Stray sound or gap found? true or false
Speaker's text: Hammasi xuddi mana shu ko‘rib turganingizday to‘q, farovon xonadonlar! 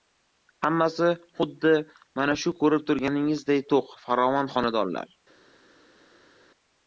false